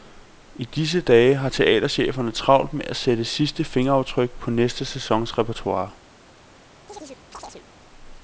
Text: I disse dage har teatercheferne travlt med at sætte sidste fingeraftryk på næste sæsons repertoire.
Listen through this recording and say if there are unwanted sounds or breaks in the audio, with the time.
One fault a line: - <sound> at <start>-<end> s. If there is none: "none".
- chirp at 6.9-7.7 s